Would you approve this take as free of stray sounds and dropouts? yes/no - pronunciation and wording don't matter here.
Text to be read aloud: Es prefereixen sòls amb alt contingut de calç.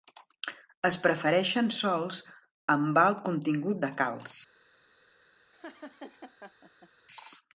no